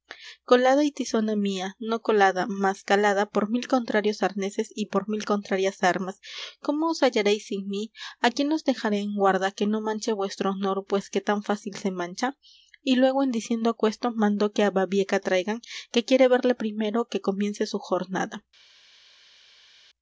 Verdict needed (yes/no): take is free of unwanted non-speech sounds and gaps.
yes